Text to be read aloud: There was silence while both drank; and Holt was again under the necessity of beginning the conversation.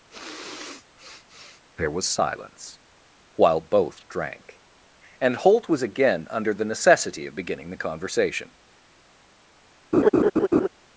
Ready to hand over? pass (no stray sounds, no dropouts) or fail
fail